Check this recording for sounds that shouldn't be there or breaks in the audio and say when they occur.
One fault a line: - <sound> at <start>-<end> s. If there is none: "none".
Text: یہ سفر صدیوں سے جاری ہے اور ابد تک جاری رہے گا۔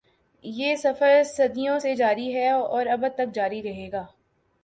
none